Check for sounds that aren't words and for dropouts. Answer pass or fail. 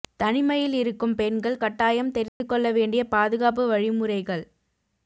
fail